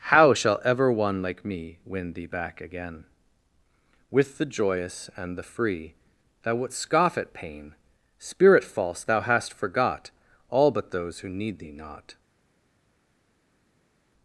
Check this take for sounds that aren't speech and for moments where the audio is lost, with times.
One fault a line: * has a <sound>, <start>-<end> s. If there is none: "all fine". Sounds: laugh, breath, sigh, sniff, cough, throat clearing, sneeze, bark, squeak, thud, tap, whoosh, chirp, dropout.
all fine